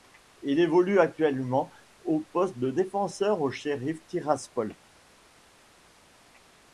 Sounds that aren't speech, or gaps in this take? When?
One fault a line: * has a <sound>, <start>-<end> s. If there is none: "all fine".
all fine